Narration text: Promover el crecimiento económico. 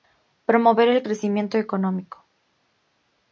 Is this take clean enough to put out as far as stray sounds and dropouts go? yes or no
yes